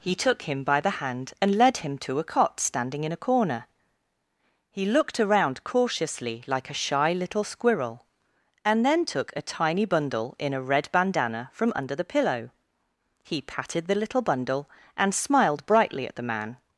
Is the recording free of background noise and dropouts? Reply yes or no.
yes